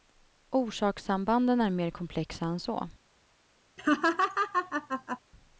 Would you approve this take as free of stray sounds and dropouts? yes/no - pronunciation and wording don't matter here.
no